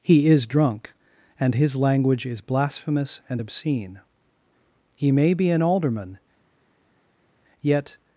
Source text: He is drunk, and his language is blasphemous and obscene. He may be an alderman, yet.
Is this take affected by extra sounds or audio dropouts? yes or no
no